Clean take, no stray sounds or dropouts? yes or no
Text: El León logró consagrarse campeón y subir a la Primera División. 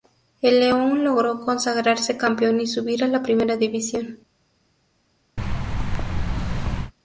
no